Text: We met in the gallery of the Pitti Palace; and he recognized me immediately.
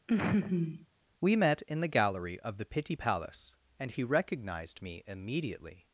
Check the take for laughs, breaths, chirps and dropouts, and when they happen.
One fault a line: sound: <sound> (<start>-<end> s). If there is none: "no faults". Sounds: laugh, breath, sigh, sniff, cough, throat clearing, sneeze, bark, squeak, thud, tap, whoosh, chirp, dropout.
sound: laugh (0.1-0.9 s)